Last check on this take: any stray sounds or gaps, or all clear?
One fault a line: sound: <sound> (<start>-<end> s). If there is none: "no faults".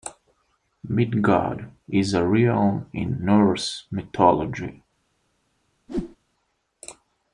sound: whoosh (5.9-6.2 s)